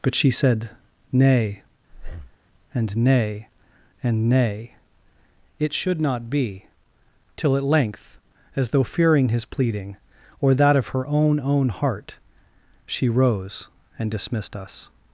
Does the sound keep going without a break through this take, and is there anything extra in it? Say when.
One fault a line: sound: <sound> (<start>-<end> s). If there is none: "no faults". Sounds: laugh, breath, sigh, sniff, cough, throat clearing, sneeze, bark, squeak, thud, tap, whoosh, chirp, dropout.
sound: breath (1.9-2.4 s)